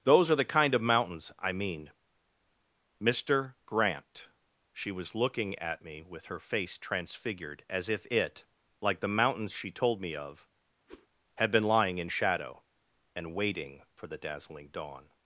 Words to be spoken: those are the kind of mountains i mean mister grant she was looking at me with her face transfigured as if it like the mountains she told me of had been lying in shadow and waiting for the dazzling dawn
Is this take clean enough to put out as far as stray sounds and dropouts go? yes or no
no